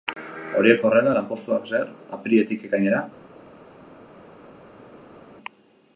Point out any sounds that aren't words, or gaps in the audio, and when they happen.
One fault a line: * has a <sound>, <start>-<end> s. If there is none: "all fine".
all fine